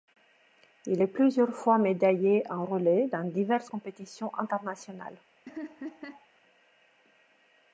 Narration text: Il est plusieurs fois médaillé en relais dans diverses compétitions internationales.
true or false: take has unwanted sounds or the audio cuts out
true